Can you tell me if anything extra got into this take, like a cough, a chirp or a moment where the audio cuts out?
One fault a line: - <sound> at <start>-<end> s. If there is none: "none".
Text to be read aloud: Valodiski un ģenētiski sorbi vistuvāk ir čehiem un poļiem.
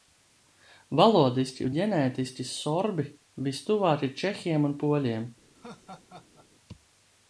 - laugh at 5.5-6.5 s